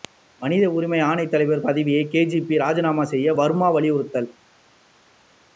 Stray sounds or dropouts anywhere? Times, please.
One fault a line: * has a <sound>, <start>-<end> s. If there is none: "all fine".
all fine